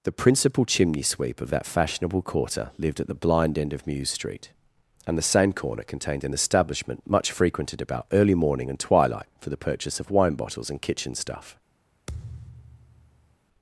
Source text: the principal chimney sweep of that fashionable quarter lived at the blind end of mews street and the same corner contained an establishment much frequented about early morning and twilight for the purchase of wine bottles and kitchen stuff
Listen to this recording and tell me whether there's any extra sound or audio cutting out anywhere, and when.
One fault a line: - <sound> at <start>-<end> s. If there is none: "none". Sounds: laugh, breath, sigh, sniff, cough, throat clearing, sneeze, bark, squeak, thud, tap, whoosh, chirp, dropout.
- thud at 12.1-13.4 s